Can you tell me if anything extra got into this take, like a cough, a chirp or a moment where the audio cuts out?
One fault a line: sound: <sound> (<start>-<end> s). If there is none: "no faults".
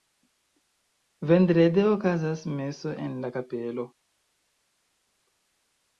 no faults